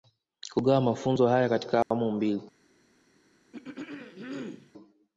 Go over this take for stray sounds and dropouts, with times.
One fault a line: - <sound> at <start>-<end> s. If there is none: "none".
- dropout at 1.8-1.9 s
- throat clearing at 3.5-4.7 s